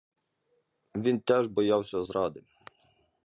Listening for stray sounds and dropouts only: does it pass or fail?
pass